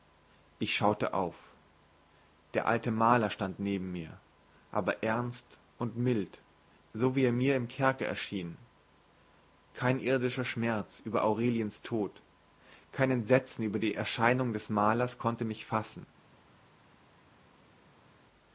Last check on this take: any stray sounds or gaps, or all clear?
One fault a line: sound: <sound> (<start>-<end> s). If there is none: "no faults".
no faults